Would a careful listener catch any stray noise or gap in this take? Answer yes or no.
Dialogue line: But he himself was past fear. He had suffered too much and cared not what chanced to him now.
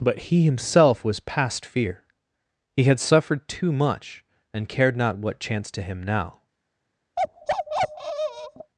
yes